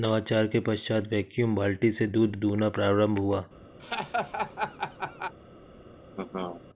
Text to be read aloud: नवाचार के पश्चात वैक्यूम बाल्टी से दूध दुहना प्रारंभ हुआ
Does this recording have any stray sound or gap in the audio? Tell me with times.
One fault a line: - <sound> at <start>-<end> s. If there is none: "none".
- laugh at 3.8-5.3 s
- laugh at 6.1-6.6 s